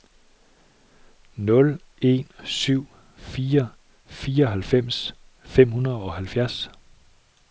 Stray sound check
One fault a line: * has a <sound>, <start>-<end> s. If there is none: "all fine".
all fine